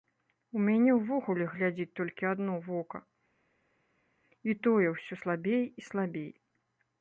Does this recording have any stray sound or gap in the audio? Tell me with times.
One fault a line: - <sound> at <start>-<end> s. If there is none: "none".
none